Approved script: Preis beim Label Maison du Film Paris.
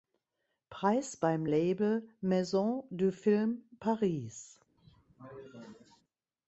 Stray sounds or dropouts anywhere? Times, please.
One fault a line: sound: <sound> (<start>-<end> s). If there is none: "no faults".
sound: cough (4.8-6.0 s)